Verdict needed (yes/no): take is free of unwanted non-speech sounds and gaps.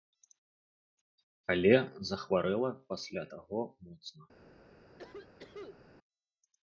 no